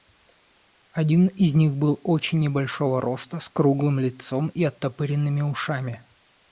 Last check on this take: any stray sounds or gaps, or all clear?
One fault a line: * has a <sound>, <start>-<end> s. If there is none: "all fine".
all fine